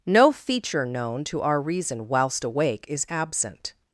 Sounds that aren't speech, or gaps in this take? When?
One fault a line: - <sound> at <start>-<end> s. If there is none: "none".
none